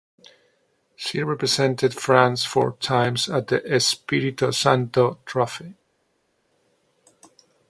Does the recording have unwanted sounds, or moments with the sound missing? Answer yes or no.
no